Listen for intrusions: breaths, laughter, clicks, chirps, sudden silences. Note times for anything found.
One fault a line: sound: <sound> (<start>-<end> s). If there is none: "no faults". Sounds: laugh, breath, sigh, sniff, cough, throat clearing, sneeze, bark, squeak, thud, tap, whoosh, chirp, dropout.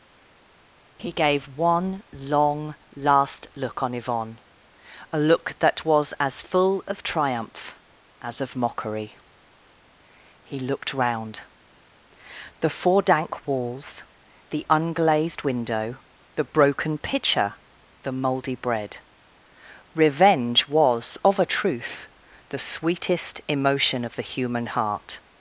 no faults